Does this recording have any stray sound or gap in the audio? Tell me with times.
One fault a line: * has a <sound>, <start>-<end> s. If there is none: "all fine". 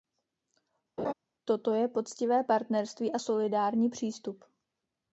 * has a laugh, 1.0-1.1 s